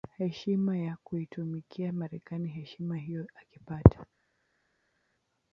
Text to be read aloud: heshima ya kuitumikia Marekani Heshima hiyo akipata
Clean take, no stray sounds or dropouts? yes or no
yes